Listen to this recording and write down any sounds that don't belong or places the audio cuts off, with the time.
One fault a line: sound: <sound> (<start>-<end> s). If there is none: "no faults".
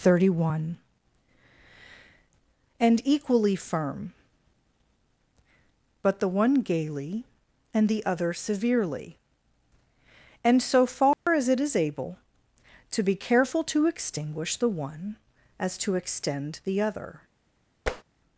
sound: dropout (11.1-11.3 s)
sound: tap (17.9-18.0 s)